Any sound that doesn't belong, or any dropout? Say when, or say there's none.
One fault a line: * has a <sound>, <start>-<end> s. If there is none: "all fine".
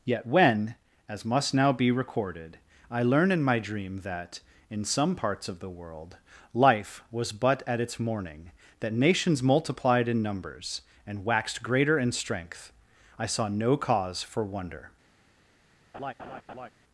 * has a laugh, 15.9-16.7 s